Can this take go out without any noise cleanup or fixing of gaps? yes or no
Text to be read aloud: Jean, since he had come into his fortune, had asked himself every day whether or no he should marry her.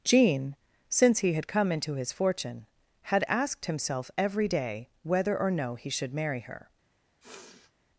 no